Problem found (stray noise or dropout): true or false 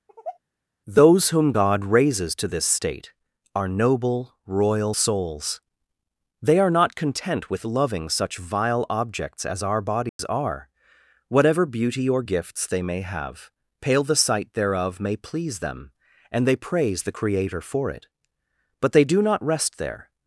true